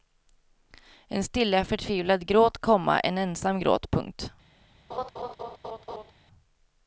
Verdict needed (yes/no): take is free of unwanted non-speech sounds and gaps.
no